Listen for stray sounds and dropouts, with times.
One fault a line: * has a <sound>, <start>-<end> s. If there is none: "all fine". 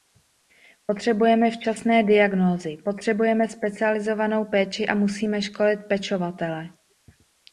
all fine